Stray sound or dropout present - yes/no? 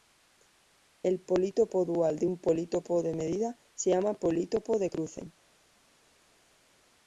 no